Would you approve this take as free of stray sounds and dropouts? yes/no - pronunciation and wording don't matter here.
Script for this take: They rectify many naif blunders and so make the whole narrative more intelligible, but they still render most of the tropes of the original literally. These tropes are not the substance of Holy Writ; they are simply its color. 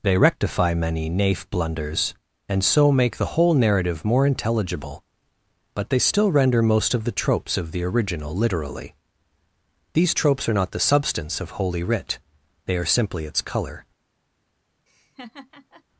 no